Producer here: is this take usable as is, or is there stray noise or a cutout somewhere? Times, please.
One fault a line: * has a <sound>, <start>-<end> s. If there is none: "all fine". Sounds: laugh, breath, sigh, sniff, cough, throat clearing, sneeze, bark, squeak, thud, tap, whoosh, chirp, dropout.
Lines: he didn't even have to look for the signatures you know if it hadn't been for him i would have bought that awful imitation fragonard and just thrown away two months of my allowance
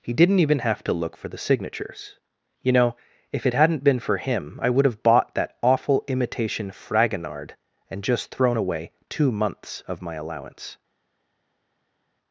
all fine